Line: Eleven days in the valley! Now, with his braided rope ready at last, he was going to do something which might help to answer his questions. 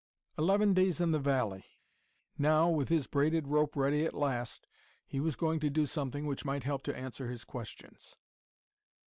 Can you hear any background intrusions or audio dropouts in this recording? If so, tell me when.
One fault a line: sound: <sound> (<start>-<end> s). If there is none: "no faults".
no faults